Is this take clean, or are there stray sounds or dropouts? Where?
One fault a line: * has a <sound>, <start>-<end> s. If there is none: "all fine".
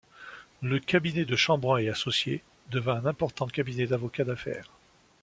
all fine